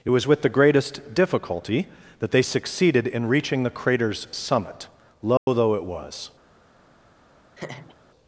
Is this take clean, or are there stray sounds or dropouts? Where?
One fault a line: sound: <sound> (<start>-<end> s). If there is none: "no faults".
sound: dropout (5.4-5.5 s)
sound: laugh (7.5-8.0 s)